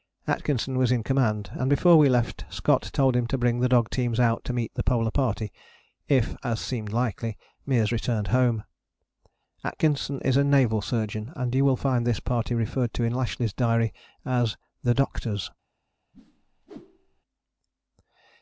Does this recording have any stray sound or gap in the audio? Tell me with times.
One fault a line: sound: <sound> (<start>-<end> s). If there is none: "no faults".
sound: whoosh (16.1-17.2 s)